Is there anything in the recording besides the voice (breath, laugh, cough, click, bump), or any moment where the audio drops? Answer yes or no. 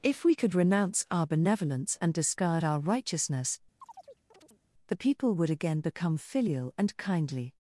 yes